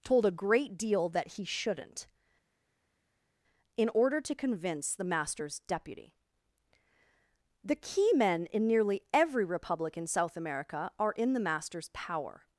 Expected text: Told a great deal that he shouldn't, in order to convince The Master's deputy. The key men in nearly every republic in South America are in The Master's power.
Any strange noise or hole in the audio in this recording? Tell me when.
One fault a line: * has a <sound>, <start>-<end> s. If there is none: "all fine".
all fine